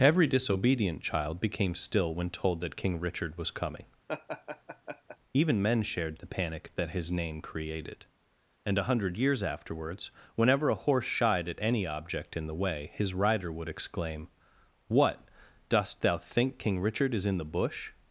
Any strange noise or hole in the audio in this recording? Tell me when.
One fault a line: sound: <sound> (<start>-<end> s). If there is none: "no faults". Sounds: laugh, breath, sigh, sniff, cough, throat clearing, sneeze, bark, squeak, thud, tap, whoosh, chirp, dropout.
sound: laugh (4.1-5.2 s)